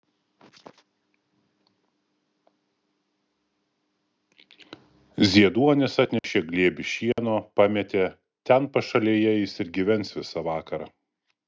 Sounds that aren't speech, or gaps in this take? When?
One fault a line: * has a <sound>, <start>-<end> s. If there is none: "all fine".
* has a dropout, 6.2-6.2 s
* has a dropout, 7.1-7.2 s